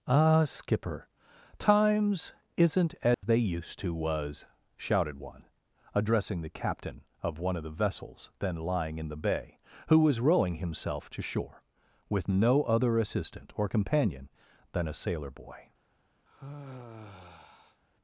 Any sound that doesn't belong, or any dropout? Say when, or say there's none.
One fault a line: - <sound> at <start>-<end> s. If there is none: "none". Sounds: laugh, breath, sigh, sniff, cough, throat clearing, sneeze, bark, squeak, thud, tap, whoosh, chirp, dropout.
- dropout at 3.1-3.2 s
- sigh at 16.3-17.8 s